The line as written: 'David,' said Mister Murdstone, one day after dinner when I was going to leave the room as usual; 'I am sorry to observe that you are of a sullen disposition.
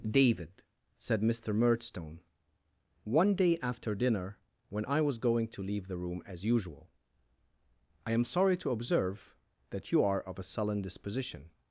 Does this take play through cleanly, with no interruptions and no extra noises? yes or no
yes